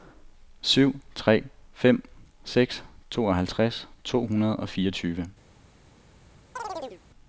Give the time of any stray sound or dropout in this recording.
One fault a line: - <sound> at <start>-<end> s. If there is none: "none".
- chirp at 6.6-7.0 s